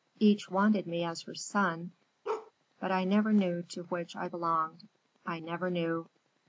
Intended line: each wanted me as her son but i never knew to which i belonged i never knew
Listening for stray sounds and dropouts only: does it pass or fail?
fail